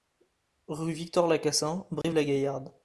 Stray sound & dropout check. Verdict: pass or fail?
fail